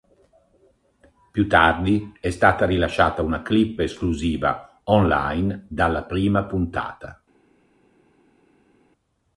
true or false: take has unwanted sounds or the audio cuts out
false